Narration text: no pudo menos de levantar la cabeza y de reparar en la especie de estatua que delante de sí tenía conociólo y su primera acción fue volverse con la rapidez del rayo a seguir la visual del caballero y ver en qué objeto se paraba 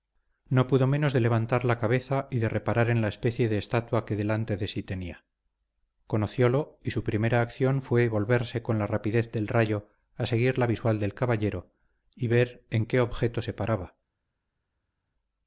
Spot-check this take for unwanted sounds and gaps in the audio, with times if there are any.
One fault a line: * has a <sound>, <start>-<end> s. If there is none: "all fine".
all fine